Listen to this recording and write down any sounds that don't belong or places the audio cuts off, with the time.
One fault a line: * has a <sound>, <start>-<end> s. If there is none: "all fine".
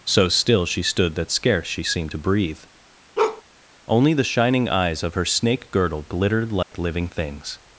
* has a bark, 3.2-3.4 s
* has a dropout, 6.6-6.7 s